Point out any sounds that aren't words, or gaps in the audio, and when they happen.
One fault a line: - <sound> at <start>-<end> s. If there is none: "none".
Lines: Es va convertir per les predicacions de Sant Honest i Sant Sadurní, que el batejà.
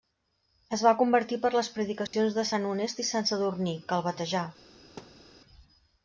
- dropout at 2.1-2.1 s
- thud at 5.0-5.3 s